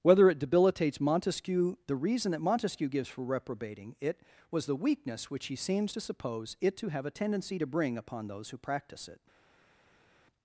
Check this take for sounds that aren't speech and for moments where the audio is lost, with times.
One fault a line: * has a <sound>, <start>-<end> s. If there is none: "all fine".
all fine